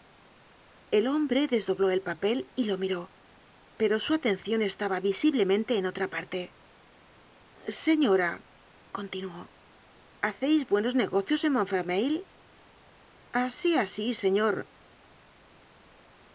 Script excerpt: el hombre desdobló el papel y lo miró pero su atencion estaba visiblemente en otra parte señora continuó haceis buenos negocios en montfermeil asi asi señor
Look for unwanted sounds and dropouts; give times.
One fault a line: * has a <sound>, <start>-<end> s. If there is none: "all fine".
all fine